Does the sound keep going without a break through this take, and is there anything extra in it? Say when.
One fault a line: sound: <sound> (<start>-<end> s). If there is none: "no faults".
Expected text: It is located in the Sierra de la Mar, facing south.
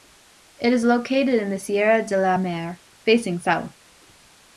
no faults